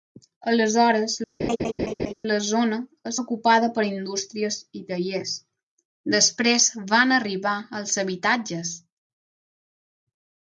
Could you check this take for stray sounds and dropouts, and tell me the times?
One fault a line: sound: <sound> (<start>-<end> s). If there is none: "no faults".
sound: laugh (1.4-2.1 s)